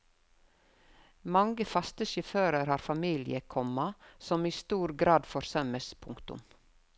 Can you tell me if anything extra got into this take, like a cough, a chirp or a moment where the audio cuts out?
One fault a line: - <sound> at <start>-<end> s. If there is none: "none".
none